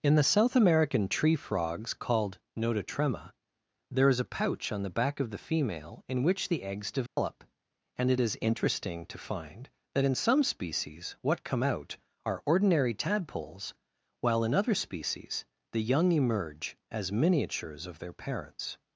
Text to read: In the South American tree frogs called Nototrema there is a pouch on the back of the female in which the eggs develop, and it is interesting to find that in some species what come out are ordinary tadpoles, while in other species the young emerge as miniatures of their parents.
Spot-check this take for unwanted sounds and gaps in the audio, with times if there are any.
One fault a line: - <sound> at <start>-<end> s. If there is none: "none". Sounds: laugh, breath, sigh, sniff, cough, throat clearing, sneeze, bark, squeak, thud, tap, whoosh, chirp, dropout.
- dropout at 7.1-7.2 s